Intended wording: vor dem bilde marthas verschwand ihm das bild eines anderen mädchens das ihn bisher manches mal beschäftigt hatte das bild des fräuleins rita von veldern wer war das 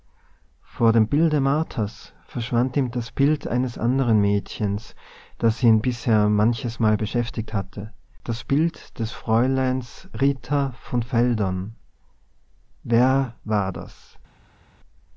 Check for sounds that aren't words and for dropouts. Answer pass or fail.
pass